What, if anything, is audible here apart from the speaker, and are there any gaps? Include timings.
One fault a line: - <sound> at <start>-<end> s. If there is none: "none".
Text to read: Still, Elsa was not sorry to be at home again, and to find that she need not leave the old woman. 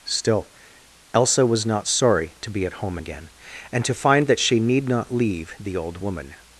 none